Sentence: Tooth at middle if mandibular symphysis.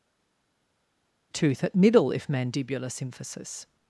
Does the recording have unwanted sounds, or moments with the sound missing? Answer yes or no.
no